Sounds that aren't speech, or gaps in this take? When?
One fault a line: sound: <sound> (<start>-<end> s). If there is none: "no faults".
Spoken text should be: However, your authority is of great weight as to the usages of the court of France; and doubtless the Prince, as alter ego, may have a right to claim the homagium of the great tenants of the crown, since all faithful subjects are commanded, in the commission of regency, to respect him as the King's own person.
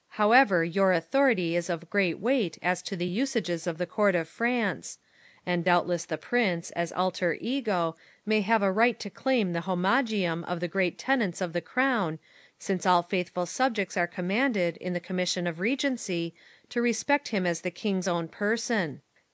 no faults